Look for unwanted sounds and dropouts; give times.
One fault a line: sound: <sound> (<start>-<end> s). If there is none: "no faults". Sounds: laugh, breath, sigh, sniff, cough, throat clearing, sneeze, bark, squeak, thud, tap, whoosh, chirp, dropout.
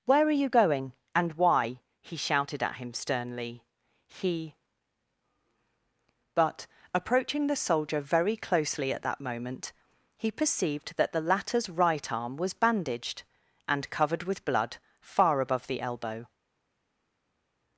no faults